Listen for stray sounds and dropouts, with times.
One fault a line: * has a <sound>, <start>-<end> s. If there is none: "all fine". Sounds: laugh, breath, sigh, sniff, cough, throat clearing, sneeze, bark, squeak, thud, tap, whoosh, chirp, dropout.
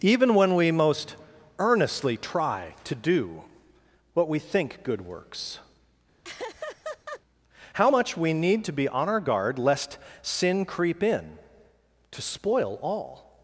* has a laugh, 6.2-7.2 s